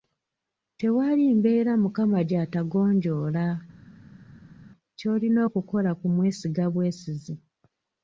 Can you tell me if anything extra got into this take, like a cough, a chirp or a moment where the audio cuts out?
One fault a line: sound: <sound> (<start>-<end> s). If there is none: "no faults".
no faults